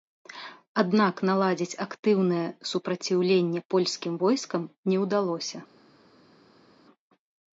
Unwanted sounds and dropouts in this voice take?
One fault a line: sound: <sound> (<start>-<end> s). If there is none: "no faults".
no faults